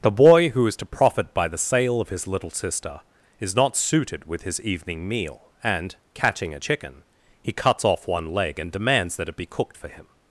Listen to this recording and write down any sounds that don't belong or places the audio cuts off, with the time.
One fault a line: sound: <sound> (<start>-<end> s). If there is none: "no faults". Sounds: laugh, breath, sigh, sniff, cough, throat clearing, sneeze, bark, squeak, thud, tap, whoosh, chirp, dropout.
no faults